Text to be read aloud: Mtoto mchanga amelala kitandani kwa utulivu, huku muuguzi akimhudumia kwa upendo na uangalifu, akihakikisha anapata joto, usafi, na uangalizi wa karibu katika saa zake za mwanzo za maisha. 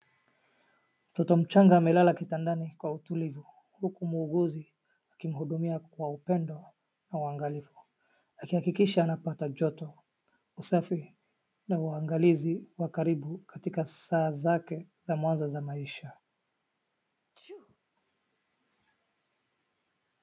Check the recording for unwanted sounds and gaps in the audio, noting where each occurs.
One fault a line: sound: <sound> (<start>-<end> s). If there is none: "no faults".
sound: sneeze (17.4-17.8 s)